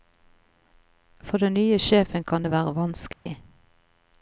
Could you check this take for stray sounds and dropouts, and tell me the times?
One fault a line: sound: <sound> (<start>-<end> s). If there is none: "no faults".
sound: dropout (3.1-3.3 s)